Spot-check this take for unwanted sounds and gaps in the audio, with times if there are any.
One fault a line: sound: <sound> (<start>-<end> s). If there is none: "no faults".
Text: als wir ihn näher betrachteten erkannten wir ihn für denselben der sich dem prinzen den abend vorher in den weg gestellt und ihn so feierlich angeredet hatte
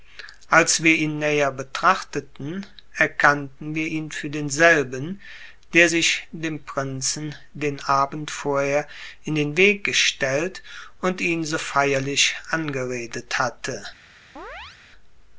sound: chirp (14.4-14.8 s)